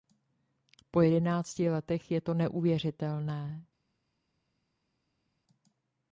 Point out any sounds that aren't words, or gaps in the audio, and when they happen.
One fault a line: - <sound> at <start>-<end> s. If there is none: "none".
none